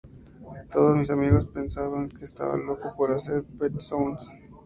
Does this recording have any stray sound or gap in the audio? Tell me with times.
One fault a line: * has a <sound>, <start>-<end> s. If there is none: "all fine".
all fine